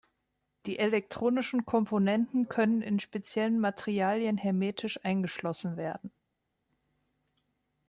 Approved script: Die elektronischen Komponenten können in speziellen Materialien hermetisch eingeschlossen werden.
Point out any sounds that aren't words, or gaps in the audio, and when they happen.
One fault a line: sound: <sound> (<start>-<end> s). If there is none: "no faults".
no faults